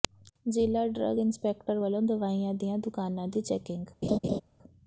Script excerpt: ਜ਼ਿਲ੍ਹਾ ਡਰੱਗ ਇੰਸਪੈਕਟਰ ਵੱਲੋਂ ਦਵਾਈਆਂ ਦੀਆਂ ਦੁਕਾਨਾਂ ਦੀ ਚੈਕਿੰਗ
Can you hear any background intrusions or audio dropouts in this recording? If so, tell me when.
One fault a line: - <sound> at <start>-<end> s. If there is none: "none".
- laugh at 4.0-4.4 s